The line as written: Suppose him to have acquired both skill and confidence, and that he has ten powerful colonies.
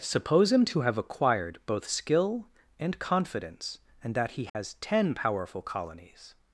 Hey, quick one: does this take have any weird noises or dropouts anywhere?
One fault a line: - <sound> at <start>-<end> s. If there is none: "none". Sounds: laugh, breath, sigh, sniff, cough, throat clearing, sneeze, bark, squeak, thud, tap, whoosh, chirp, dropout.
- dropout at 4.5-4.6 s